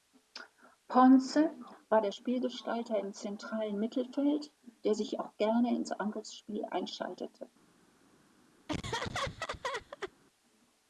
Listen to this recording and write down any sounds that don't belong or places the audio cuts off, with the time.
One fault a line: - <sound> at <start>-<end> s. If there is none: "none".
- laugh at 8.7-10.1 s